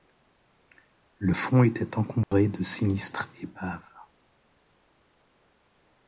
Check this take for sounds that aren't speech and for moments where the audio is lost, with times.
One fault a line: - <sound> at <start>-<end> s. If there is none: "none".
- dropout at 2.2-2.3 s